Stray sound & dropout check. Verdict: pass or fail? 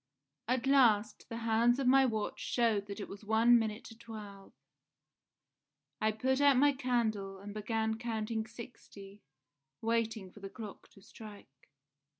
pass